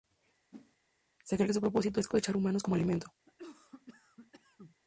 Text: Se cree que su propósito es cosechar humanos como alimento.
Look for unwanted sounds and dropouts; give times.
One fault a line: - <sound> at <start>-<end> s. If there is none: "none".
- whoosh at 0.5-0.8 s
- cough at 3.3-4.8 s